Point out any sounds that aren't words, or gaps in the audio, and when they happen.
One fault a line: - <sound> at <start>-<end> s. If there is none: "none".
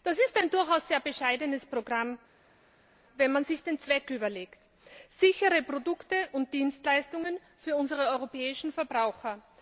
none